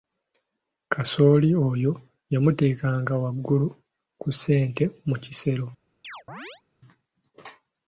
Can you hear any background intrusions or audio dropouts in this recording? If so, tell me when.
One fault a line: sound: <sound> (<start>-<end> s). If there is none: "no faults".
sound: chirp (6.0-6.6 s)